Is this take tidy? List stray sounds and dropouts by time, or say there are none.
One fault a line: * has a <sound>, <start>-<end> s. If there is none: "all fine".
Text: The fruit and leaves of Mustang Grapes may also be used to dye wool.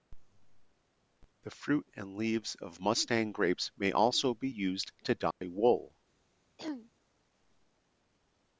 * has a dropout, 5.3-5.4 s
* has a throat clearing, 6.6-6.9 s